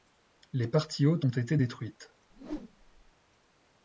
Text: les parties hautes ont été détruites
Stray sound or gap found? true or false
true